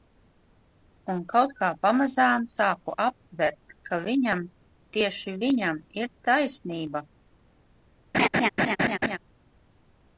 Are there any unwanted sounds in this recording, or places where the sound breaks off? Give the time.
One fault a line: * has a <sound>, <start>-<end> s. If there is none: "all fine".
* has a laugh, 8.1-9.2 s